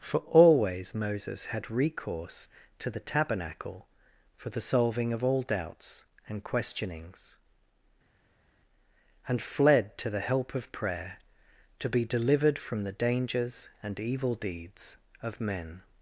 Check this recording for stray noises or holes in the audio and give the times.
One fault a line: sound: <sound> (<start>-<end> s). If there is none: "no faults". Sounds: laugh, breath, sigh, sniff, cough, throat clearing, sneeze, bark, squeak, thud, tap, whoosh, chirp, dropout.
no faults